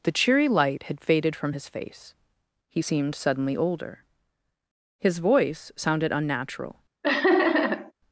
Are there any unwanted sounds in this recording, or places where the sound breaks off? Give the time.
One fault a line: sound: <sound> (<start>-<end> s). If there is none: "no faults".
sound: laugh (7.0-7.9 s)